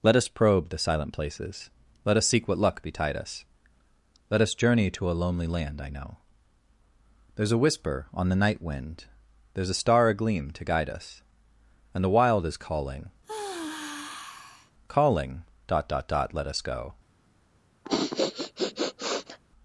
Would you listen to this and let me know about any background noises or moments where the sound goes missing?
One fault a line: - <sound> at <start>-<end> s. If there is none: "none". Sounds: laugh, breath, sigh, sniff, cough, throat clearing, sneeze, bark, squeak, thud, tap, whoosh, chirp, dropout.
- sigh at 13.2-14.7 s
- sniff at 17.8-19.4 s